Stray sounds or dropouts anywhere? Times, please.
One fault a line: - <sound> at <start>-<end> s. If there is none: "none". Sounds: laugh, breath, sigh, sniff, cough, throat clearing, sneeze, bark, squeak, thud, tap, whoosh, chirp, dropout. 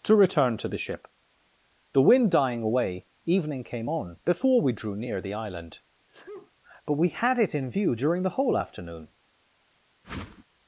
- sneeze at 6.1-6.5 s
- whoosh at 10.0-10.4 s